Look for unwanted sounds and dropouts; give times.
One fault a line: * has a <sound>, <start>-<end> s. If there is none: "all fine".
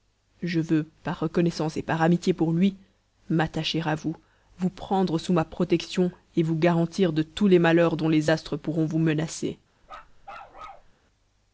* has a bark, 9.8-10.9 s